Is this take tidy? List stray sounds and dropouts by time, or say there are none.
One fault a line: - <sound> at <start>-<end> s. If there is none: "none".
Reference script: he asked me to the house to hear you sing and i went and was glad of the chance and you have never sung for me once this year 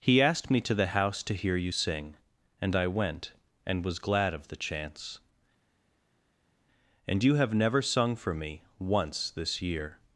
none